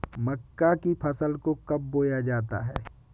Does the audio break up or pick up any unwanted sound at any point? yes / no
no